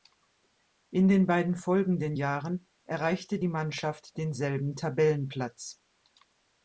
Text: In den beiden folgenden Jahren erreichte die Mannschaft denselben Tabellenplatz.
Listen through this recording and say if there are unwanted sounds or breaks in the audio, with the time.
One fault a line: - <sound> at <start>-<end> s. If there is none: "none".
none